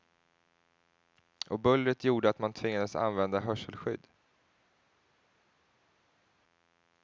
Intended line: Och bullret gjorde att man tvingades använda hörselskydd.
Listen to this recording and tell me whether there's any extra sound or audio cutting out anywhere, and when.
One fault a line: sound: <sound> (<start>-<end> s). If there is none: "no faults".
no faults